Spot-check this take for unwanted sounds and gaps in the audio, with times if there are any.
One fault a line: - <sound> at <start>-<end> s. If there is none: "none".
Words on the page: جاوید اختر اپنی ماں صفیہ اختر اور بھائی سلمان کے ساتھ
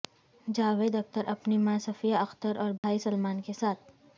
- dropout at 2.8-2.8 s